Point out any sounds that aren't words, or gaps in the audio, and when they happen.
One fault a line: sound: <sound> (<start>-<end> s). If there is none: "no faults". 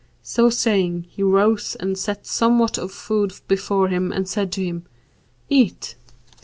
no faults